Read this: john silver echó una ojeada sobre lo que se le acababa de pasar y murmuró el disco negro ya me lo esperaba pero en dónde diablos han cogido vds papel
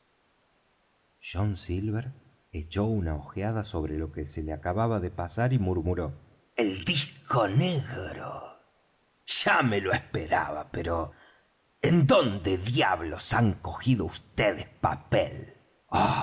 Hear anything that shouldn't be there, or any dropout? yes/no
no